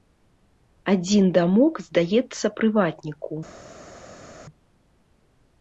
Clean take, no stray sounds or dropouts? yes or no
yes